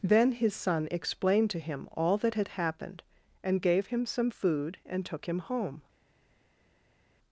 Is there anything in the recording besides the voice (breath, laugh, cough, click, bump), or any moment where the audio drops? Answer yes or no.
no